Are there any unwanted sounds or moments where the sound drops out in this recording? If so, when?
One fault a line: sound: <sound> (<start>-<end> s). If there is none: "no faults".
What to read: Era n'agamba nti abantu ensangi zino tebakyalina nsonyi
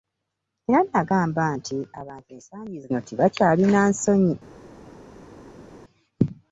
no faults